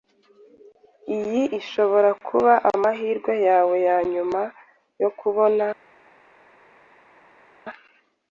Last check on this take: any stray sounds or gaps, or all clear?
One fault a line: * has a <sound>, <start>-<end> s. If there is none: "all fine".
all fine